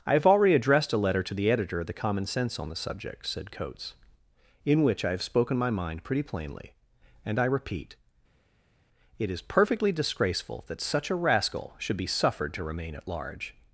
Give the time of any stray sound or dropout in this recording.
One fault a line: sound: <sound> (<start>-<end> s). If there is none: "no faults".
no faults